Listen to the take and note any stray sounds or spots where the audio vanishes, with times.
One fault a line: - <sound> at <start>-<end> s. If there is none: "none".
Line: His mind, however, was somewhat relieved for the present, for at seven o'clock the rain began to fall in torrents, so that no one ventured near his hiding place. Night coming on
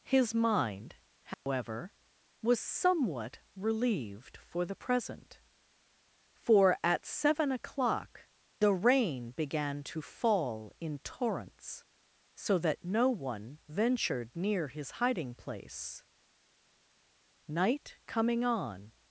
- dropout at 1.3-1.5 s